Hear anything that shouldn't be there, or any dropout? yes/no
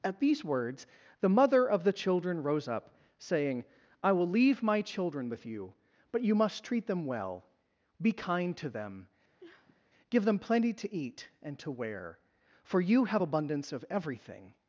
yes